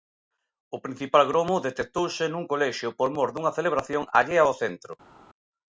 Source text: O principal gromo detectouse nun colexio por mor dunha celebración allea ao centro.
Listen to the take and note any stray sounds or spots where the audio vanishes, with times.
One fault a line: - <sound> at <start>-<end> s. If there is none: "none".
none